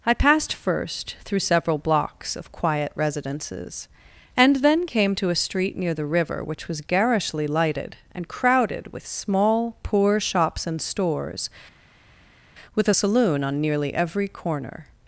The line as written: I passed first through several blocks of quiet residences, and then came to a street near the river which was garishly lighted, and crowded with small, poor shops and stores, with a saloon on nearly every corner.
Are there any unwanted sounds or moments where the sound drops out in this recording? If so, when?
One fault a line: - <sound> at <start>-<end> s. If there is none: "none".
none